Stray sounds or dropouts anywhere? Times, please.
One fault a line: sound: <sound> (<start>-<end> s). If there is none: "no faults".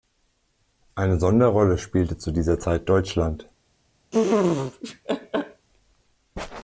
sound: laugh (4.1-5.7 s)